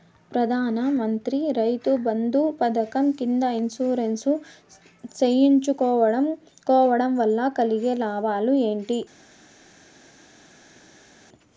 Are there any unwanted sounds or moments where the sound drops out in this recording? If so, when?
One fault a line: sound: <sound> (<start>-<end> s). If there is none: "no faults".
no faults